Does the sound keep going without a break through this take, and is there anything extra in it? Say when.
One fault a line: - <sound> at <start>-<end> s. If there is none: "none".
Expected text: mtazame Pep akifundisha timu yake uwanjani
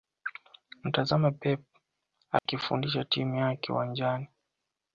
- dropout at 2.4-2.5 s